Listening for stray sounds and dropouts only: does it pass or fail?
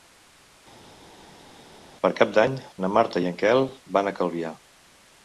pass